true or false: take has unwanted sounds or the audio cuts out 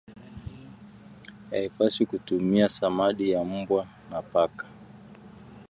false